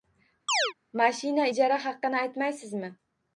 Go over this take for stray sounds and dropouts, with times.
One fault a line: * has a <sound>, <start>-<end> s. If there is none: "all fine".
* has a chirp, 0.5-0.7 s